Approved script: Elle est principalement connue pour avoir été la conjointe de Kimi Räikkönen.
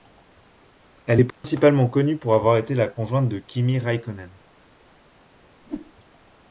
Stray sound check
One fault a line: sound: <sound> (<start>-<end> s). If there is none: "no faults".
sound: dropout (1.3-1.4 s)
sound: whoosh (5.6-5.9 s)